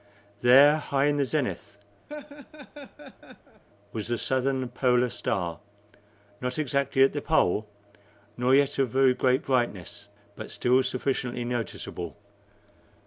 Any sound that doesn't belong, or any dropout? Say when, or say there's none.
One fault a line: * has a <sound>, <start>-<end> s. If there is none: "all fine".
* has a laugh, 2.1-3.6 s